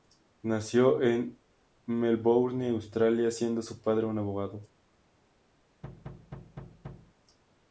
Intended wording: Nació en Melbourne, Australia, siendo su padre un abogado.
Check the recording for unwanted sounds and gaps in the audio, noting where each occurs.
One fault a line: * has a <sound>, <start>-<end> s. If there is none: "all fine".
* has a thud, 5.8-7.1 s